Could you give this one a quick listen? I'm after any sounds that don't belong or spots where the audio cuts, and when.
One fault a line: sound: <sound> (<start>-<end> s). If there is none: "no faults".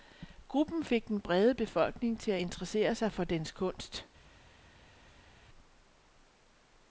no faults